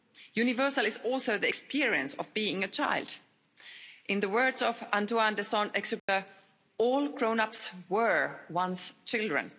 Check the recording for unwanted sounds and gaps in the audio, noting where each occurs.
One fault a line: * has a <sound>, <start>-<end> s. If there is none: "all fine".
* has a dropout, 6.0-6.1 s